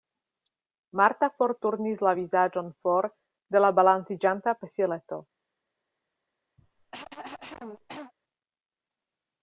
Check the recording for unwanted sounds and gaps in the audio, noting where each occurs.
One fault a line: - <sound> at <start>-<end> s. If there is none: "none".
- cough at 6.6-8.1 s